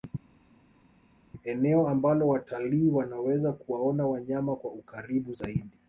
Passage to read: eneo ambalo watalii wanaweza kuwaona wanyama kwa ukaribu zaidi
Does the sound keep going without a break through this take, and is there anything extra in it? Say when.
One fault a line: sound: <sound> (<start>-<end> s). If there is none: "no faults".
no faults